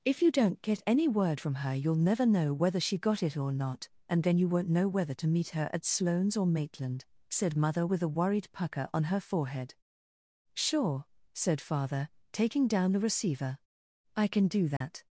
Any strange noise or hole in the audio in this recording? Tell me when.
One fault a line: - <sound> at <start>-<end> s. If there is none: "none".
- dropout at 14.8-14.8 s